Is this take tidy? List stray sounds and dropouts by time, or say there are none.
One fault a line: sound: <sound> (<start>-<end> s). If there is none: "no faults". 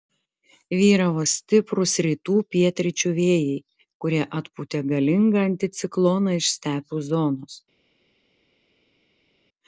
no faults